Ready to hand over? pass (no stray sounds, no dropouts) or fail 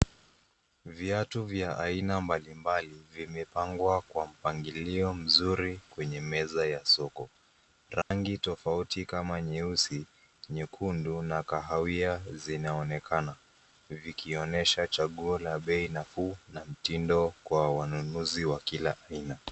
fail